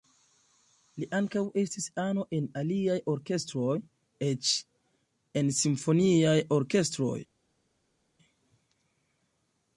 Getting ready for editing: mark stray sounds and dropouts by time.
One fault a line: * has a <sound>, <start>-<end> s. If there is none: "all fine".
all fine